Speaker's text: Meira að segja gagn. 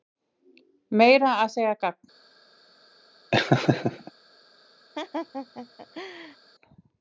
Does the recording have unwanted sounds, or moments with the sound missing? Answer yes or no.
yes